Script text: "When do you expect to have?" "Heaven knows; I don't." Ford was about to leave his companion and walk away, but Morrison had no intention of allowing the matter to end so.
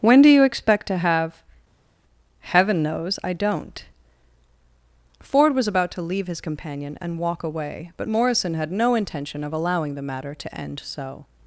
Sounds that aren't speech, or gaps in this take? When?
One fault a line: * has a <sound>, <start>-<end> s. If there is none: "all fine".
all fine